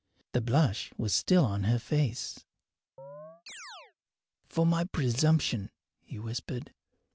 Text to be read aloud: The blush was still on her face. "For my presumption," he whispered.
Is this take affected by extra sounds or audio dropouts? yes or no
yes